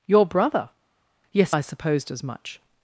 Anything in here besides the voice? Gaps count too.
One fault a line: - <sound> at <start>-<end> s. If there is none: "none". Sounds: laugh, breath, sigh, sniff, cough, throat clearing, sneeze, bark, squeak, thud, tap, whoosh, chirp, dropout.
none